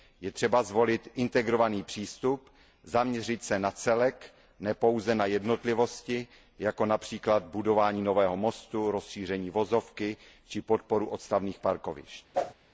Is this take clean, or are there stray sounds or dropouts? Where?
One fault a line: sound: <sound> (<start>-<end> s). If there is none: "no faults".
sound: whoosh (12.3-12.5 s)